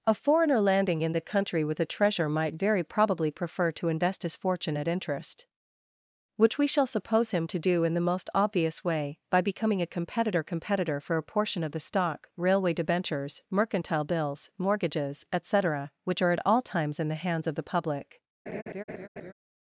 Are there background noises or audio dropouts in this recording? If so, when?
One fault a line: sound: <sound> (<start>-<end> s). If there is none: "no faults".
sound: laugh (18.5-19.3 s)